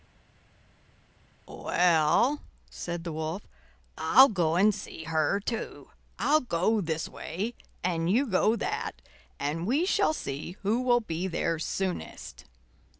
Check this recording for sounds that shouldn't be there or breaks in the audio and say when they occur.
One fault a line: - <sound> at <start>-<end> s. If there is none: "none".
none